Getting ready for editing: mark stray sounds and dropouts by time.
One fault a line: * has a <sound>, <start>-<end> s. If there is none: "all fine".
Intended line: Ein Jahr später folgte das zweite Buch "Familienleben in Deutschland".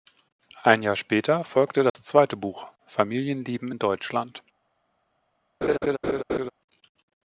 * has a dropout, 1.9-2.0 s
* has a laugh, 5.6-6.5 s